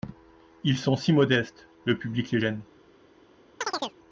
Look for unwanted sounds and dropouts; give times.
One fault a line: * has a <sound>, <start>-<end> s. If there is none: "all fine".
* has a chirp, 3.6-4.0 s